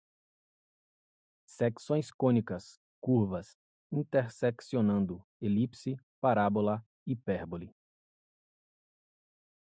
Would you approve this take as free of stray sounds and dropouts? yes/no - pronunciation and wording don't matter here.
yes